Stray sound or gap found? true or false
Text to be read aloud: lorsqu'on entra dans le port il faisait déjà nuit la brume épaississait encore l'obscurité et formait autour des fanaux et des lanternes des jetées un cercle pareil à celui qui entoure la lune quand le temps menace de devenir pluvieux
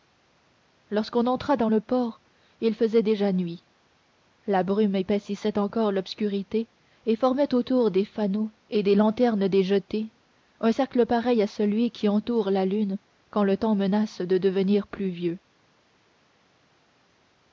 false